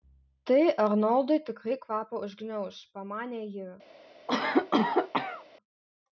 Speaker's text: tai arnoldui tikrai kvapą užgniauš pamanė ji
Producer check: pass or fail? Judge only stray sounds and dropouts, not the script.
fail